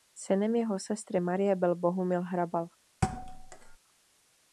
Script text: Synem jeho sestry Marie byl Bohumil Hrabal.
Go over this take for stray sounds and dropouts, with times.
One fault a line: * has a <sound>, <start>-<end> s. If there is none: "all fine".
* has a thud, 3.0-3.8 s